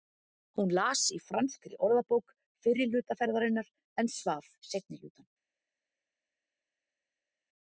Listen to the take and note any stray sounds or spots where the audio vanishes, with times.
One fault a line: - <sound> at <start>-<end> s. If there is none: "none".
none